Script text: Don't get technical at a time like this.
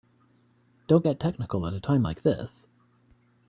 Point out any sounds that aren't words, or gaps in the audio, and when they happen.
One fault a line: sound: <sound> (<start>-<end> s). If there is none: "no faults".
no faults